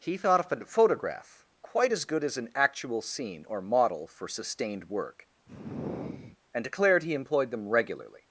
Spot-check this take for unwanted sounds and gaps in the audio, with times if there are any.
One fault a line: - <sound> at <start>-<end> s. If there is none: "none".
- sigh at 5.5-6.4 s